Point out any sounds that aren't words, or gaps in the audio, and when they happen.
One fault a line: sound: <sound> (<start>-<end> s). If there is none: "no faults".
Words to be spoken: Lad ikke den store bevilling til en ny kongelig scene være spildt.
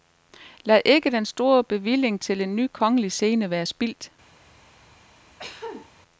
sound: cough (5.4-5.9 s)